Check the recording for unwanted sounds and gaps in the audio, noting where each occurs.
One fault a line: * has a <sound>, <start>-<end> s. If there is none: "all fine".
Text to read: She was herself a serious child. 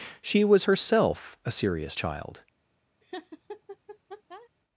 * has a laugh, 3.0-4.5 s